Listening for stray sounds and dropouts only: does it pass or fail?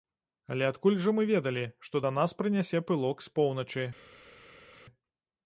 pass